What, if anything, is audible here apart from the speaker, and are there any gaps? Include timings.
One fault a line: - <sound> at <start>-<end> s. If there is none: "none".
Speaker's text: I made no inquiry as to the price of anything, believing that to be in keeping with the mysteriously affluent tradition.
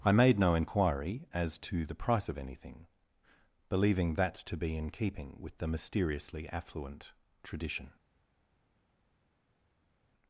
none